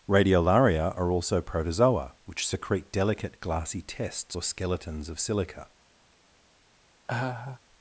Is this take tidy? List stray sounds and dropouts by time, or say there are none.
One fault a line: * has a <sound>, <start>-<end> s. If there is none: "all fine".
* has a laugh, 7.1-7.6 s